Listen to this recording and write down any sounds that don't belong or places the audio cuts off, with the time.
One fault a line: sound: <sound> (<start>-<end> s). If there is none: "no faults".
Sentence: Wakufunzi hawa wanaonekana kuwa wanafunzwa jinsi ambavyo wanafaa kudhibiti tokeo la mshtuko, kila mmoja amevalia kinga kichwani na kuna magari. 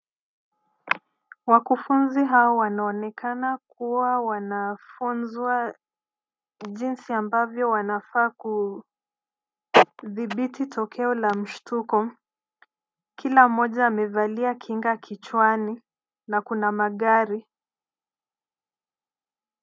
no faults